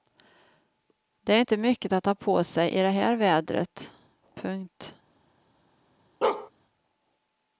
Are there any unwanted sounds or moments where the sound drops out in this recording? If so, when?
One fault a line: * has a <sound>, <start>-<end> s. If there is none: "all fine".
* has a bark, 6.2-6.5 s